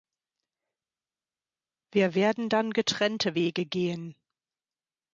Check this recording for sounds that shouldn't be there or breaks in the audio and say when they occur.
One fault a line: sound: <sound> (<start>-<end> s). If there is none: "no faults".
no faults